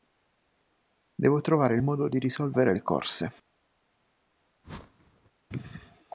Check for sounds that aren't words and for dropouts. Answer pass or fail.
fail